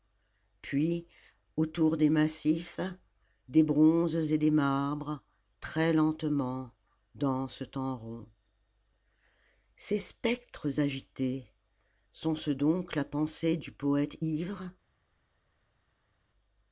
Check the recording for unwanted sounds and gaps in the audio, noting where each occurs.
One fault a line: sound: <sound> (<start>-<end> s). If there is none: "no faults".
no faults